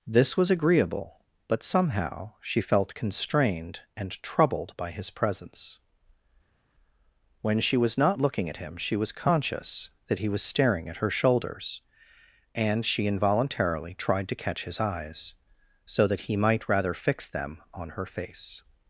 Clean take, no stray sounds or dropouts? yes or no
yes